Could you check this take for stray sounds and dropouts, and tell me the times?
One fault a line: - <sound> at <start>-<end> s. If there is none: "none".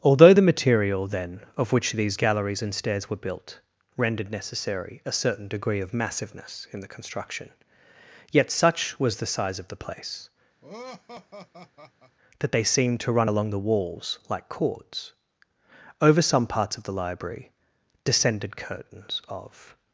- laugh at 10.6-12.2 s